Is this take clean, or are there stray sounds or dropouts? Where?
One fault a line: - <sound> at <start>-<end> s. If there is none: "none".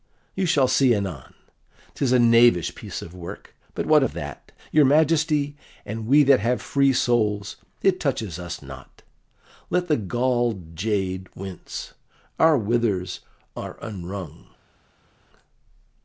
none